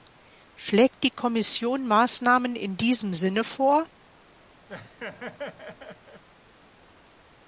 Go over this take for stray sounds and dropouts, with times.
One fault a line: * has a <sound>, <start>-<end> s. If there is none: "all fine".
* has a laugh, 4.7-6.2 s